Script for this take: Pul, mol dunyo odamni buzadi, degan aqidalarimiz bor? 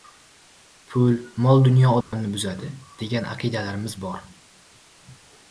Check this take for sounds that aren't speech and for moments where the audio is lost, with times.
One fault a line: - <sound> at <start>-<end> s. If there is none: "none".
- dropout at 2.0-2.1 s